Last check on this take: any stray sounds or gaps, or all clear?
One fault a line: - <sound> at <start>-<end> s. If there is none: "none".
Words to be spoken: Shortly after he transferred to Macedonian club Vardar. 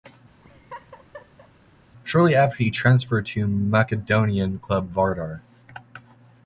- laugh at 0.4-1.5 s